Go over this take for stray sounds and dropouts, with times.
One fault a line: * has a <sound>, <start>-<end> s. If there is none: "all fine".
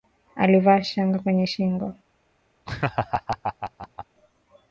* has a laugh, 2.7-4.1 s